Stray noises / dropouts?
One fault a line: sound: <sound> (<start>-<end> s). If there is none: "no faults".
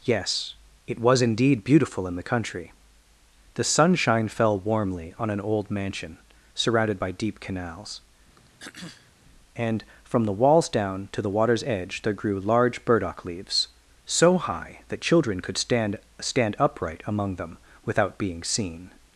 sound: throat clearing (8.4-9.1 s)